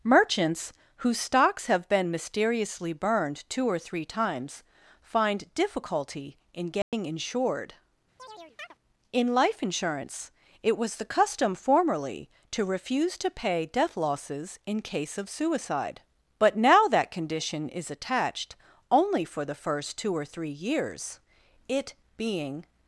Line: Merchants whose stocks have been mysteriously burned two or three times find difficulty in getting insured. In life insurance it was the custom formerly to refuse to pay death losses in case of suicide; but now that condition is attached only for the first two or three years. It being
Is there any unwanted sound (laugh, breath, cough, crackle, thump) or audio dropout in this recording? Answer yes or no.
yes